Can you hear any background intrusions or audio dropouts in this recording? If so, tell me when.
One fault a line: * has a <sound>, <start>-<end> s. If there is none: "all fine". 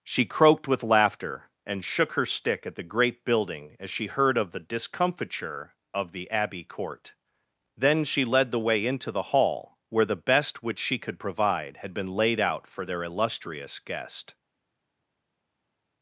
all fine